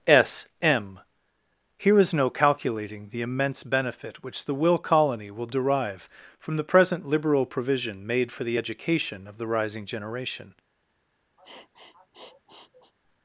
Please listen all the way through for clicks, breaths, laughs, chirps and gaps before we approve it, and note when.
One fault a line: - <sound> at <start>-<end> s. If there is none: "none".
- sniff at 11.4-12.9 s